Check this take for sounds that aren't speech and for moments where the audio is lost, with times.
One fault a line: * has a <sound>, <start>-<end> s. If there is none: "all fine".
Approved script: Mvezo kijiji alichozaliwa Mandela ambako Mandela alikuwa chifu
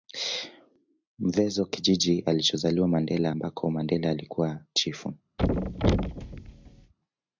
* has a thud, 5.4-6.9 s